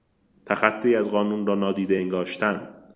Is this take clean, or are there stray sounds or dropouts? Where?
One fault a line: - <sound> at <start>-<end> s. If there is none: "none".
none